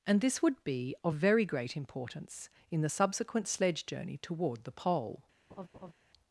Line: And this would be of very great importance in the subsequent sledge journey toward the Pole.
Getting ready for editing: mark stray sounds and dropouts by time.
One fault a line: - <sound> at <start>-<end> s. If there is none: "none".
- laugh at 5.5-5.9 s